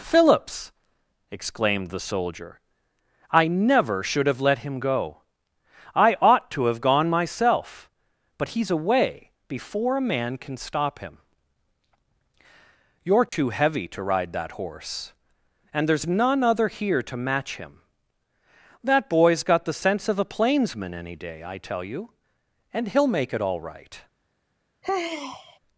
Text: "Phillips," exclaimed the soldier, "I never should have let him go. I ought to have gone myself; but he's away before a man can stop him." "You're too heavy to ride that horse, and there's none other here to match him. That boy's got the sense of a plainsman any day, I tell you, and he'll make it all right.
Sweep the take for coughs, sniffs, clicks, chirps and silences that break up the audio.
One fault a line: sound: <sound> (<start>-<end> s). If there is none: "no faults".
sound: dropout (13.3-13.3 s)
sound: sigh (24.8-25.6 s)